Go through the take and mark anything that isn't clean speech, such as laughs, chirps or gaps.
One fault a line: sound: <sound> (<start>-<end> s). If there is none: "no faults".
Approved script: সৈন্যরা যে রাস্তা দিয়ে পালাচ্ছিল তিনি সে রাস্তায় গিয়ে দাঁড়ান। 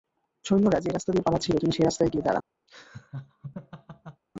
sound: laugh (2.7-4.2 s)